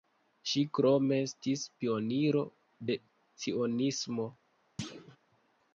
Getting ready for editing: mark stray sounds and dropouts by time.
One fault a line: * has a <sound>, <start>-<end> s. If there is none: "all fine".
* has a thud, 4.8-5.2 s